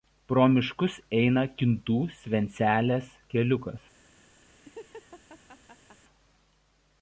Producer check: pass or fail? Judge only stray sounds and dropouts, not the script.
fail